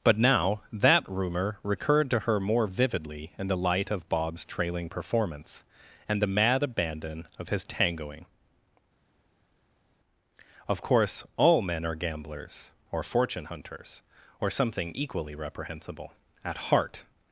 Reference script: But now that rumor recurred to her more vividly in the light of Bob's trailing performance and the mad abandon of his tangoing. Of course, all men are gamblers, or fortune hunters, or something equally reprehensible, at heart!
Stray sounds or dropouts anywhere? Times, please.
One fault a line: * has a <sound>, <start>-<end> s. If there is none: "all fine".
all fine